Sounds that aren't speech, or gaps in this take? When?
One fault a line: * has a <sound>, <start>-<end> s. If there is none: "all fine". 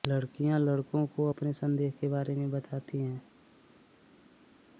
all fine